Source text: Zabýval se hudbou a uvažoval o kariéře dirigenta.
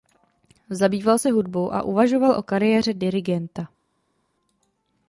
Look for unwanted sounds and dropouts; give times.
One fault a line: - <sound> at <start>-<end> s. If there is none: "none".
none